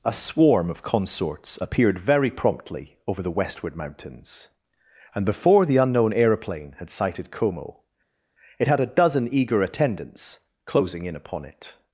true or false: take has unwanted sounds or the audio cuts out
false